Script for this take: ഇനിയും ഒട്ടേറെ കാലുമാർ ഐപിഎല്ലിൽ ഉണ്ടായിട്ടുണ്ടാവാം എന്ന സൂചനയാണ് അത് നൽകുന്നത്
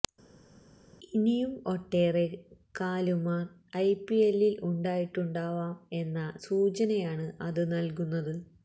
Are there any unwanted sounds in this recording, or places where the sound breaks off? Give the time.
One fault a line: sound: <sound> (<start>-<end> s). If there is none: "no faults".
no faults